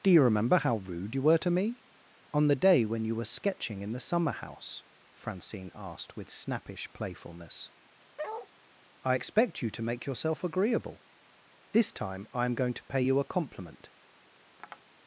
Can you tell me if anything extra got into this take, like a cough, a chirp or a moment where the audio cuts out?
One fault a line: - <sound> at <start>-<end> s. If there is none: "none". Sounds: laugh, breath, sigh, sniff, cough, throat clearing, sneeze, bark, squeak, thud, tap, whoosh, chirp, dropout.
- bark at 8.2-8.5 s
- tap at 14.6-14.8 s